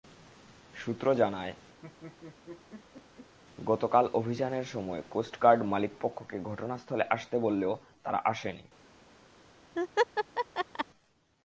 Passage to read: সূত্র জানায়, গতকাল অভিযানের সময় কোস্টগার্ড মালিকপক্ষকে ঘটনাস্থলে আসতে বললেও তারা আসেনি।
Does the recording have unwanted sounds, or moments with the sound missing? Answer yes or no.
yes